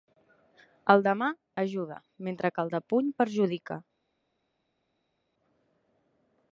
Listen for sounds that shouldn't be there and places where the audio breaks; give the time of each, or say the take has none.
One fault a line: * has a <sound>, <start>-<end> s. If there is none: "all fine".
all fine